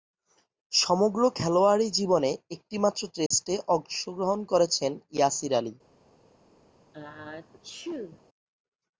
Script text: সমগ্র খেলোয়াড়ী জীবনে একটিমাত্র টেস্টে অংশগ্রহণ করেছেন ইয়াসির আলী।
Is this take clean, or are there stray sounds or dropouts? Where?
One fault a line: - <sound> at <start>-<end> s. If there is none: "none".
- dropout at 3.3-3.3 s
- sneeze at 6.9-8.2 s